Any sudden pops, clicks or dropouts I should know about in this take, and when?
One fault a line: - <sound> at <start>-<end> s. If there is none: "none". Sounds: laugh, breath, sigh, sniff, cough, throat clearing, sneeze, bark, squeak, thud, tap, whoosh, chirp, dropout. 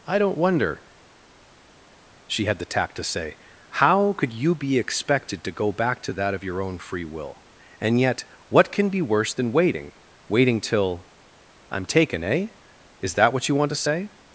none